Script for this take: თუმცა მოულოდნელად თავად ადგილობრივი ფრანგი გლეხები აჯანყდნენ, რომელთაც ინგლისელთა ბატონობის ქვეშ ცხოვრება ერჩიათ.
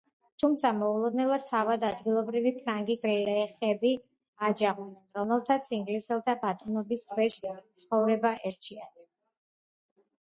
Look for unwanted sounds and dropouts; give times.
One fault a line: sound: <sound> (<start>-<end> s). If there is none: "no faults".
no faults